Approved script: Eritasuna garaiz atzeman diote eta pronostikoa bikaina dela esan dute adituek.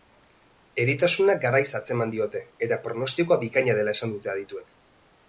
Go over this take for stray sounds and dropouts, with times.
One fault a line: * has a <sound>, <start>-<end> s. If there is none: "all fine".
all fine